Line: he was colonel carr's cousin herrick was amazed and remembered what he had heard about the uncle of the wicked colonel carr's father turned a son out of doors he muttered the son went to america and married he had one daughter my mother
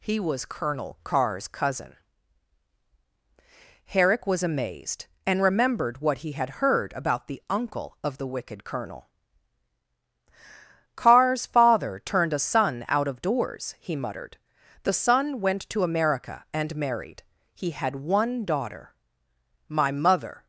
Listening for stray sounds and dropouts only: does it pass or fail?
pass